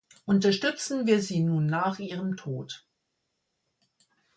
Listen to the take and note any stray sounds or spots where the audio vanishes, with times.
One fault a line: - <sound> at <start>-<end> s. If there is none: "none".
none